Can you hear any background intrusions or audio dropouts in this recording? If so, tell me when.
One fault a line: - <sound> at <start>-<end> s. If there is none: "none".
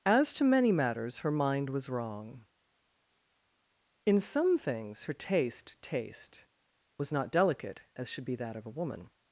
none